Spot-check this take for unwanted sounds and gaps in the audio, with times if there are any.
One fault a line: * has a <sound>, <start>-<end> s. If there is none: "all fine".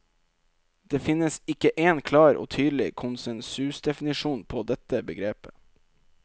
all fine